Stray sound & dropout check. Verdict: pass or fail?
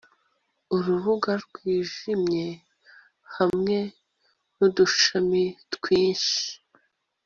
fail